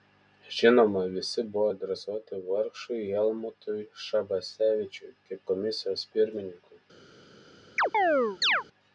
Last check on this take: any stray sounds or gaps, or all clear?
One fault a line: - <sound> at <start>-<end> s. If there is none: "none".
- chirp at 7.8-8.6 s